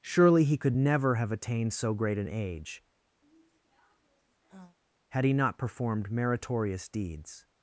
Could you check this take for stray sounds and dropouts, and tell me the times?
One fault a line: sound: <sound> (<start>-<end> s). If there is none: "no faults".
sound: sigh (3.2-4.8 s)